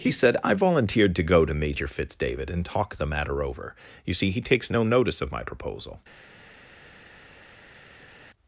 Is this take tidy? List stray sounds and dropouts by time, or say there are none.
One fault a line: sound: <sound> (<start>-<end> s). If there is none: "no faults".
no faults